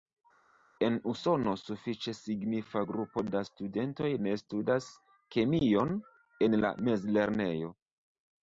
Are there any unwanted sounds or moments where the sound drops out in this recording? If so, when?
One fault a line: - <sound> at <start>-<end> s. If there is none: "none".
none